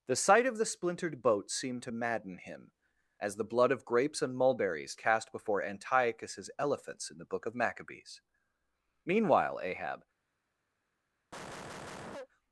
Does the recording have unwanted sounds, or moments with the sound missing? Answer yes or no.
yes